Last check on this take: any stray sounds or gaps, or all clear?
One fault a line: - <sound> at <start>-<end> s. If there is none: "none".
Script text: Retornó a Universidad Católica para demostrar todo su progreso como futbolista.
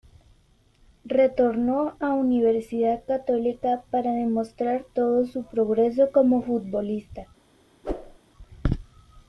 - whoosh at 7.8-8.2 s